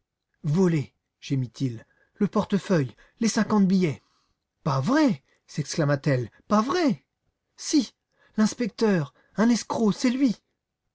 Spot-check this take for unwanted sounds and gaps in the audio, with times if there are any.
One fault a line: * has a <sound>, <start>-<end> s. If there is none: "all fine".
all fine